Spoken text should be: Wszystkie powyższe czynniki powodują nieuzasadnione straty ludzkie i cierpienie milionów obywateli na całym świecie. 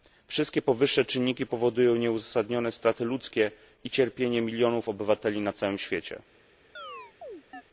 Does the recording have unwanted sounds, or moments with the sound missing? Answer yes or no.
yes